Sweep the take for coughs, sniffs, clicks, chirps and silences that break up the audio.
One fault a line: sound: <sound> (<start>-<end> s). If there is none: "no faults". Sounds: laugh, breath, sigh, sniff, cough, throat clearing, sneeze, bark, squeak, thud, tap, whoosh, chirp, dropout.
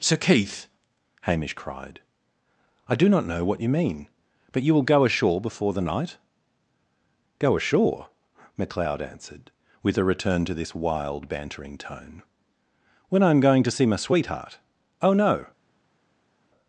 no faults